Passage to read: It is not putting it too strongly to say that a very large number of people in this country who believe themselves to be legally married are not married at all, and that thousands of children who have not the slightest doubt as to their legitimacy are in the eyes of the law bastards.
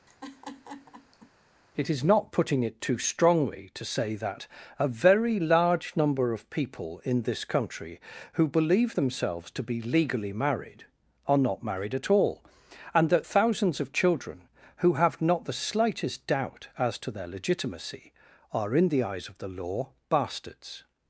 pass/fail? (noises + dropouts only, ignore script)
fail